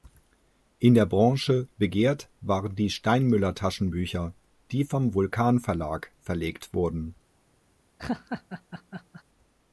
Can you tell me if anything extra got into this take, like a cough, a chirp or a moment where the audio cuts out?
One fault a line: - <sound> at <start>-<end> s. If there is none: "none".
- laugh at 8.0-9.2 s